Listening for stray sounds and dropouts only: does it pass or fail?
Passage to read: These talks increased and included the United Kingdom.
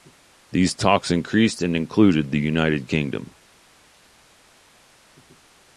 pass